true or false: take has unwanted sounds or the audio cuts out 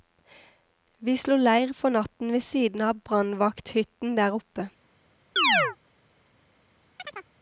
true